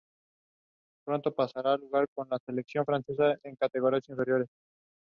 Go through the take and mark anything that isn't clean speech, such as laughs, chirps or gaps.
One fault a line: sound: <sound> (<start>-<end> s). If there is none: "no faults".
no faults